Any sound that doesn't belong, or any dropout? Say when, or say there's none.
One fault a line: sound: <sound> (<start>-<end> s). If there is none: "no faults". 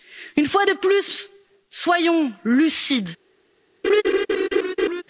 sound: laugh (3.8-5.0 s)